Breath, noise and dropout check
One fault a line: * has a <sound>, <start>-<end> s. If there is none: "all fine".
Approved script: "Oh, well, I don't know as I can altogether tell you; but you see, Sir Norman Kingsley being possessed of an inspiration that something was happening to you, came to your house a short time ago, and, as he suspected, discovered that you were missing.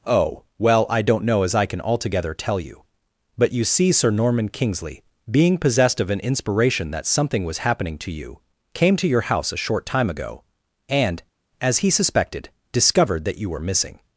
all fine